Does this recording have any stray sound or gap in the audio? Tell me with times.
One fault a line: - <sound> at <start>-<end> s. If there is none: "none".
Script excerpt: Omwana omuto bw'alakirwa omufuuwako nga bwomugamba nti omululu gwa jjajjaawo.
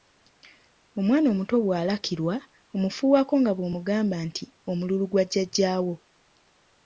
none